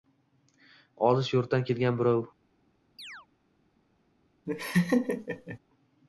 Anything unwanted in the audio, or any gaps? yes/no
yes